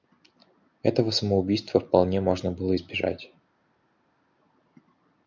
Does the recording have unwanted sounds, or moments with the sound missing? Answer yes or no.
no